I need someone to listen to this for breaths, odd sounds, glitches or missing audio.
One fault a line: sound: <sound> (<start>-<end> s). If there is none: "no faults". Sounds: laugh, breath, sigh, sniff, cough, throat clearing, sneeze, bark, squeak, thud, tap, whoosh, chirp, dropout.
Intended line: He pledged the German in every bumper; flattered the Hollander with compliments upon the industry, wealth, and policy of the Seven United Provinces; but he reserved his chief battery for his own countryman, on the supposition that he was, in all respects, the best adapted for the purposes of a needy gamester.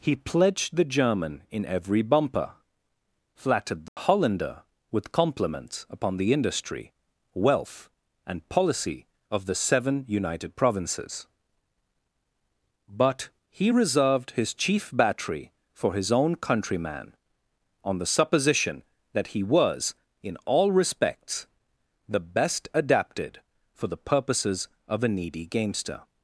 sound: dropout (3.9-4.0 s)